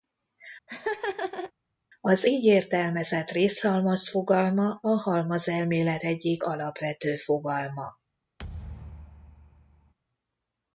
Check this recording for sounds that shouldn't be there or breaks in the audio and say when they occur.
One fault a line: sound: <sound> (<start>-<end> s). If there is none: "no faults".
sound: laugh (0.7-1.5 s)
sound: thud (8.4-9.9 s)